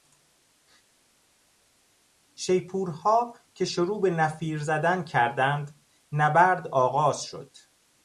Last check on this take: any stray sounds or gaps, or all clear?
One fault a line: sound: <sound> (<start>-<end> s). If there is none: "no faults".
no faults